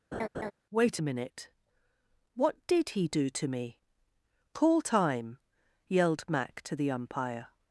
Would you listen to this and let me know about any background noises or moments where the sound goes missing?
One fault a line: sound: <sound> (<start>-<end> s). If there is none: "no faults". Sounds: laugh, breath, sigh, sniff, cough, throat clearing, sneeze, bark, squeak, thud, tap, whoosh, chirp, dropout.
sound: laugh (0.1-0.5 s)